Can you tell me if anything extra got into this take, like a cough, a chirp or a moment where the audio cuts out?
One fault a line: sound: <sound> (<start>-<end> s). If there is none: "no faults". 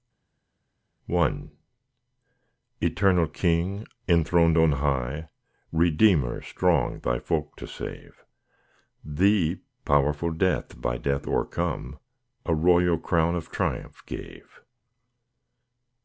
no faults